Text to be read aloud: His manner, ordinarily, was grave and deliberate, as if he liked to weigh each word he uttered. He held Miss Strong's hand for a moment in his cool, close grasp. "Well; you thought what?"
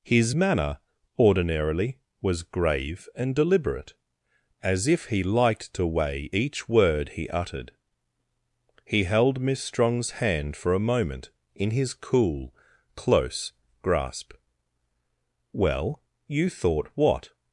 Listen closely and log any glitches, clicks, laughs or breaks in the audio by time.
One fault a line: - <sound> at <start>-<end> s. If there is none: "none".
none